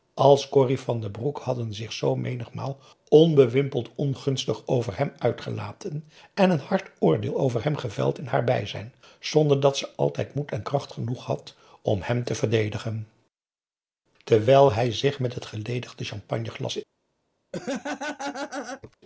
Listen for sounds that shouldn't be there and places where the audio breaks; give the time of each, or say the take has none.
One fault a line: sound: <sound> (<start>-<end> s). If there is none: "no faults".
sound: laugh (17.5-19.0 s)